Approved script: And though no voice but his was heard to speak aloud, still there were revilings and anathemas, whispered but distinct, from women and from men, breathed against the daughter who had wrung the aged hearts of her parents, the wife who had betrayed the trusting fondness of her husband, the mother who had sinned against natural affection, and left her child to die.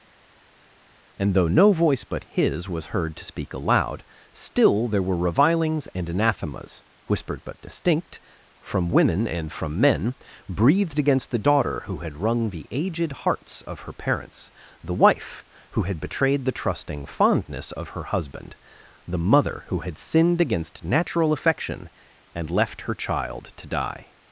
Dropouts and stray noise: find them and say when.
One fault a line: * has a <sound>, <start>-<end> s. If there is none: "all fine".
all fine